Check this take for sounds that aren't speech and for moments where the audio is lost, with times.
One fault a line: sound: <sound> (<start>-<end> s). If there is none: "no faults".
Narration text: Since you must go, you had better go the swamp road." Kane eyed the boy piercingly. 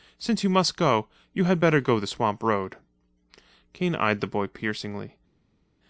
no faults